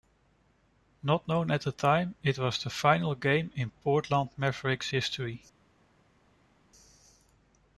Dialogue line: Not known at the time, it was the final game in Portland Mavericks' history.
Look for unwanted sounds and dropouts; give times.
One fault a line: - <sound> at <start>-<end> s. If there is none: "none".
none